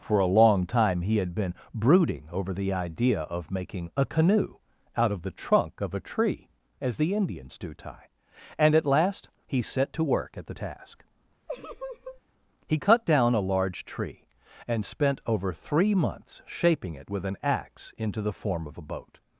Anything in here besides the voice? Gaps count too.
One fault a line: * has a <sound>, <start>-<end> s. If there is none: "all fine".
* has a laugh, 11.5-12.2 s